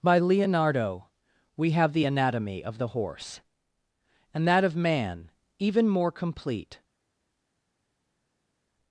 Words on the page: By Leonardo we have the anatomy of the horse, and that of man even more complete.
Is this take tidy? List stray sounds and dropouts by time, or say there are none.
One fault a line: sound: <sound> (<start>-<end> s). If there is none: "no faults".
no faults